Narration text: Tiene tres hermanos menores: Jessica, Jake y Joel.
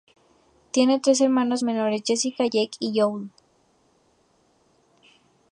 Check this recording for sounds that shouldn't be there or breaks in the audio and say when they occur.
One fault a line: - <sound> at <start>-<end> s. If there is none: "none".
none